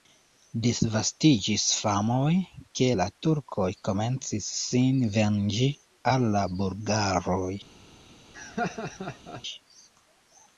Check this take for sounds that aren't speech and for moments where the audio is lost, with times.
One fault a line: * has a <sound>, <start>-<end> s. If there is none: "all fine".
* has a laugh, 8.3-9.4 s